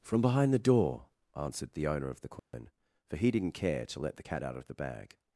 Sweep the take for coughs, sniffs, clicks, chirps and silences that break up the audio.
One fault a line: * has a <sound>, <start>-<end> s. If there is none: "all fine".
* has a dropout, 2.4-2.5 s